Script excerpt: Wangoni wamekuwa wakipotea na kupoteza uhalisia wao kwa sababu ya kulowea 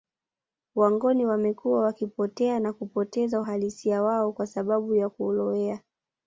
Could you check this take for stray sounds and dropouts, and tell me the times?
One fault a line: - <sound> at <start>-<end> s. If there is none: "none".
none